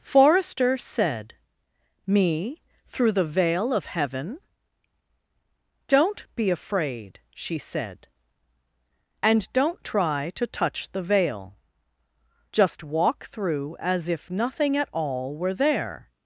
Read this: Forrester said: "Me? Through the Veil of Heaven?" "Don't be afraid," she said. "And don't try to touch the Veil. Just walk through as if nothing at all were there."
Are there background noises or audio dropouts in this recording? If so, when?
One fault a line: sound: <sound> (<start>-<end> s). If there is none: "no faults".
no faults